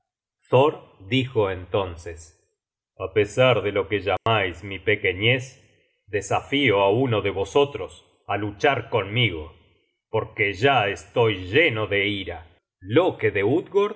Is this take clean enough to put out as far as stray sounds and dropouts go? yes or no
no